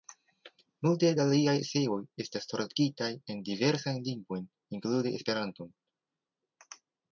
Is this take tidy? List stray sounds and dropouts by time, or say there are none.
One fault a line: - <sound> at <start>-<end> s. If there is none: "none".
none